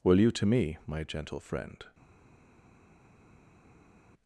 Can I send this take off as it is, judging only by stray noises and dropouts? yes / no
yes